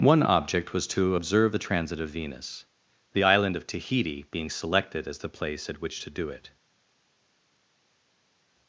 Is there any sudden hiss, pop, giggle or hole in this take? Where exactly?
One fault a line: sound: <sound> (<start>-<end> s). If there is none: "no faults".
no faults